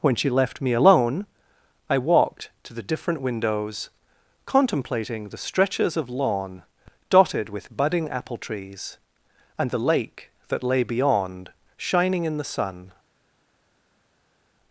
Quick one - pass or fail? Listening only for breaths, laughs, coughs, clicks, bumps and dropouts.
pass